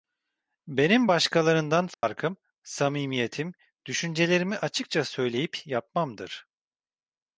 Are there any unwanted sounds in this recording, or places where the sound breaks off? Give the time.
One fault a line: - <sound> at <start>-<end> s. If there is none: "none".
- dropout at 1.9-2.0 s